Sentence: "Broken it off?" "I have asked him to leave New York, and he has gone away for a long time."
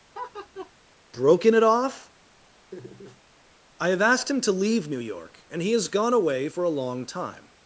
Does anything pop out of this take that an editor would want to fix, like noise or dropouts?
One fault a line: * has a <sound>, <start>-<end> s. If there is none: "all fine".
* has a laugh, 0.1-0.7 s
* has a laugh, 2.7-3.2 s